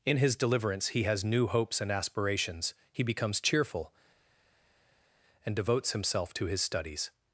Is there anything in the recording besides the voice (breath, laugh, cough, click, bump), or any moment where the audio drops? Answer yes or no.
no